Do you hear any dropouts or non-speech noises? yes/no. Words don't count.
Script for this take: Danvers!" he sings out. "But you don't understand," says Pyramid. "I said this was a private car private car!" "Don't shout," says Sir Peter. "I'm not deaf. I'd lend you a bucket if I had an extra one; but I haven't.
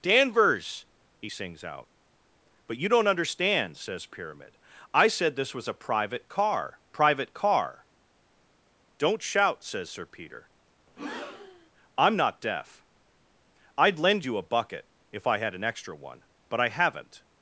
yes